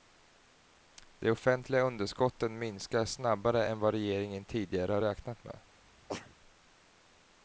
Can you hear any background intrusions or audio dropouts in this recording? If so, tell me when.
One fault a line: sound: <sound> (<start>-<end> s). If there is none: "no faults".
sound: sneeze (6.1-6.4 s)